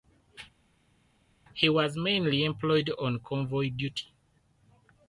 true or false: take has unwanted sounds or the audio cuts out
false